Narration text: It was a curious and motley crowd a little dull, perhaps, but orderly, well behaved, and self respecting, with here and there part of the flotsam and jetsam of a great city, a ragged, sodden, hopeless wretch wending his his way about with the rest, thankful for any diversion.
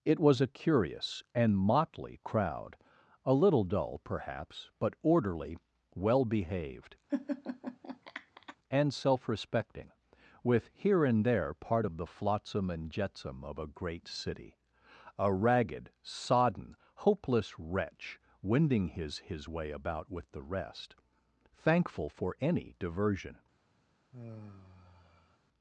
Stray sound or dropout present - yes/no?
yes